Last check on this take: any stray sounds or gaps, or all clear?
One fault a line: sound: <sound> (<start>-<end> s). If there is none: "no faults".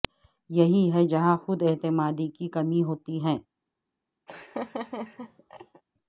sound: laugh (4.3-5.8 s)